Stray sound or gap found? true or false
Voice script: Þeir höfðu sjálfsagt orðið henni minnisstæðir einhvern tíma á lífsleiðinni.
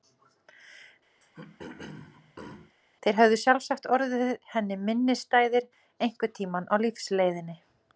true